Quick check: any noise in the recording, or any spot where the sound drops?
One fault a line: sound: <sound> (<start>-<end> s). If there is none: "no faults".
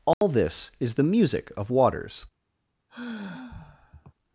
sound: dropout (0.1-0.2 s)
sound: sigh (2.9-4.1 s)